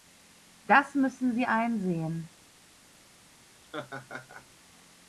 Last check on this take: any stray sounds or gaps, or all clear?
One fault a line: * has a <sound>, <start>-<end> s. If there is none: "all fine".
* has a laugh, 3.6-4.5 s